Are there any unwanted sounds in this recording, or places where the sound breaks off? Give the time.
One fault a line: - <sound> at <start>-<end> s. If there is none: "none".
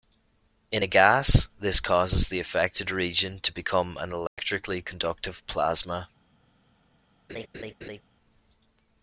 - dropout at 4.3-4.4 s
- laugh at 7.3-8.0 s